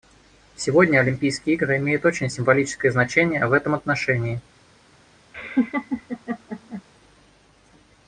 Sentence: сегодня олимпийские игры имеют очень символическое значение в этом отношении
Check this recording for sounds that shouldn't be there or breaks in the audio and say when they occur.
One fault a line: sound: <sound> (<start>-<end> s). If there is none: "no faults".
sound: laugh (5.3-6.8 s)